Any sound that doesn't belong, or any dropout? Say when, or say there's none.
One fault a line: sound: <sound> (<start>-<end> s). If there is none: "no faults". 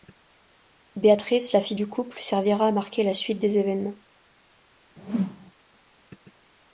sound: whoosh (5.0-5.5 s)